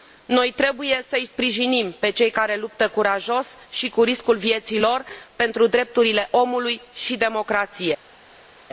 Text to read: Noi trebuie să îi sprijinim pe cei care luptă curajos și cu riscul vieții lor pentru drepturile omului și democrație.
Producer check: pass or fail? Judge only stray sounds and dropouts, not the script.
pass